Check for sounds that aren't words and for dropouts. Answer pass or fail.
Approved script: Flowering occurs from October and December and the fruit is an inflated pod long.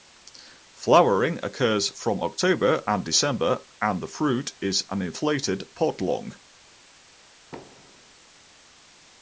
fail